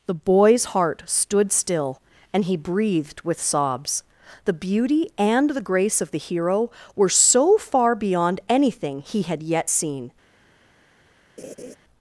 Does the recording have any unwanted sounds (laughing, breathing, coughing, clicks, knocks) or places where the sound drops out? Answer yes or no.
yes